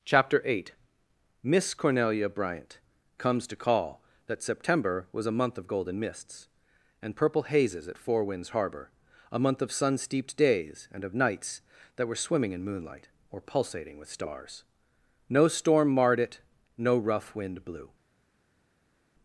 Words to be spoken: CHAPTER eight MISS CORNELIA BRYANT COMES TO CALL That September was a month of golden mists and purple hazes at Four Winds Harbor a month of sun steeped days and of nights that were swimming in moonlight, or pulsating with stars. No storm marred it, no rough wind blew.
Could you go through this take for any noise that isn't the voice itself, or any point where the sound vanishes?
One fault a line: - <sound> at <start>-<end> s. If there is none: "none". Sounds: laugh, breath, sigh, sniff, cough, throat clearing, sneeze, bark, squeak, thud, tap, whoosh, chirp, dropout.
none